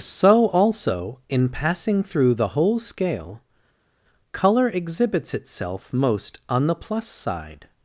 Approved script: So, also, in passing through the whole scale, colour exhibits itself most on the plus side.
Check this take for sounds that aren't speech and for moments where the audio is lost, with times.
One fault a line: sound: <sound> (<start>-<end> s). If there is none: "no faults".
no faults